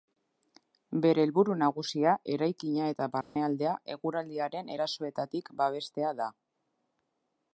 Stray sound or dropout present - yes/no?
yes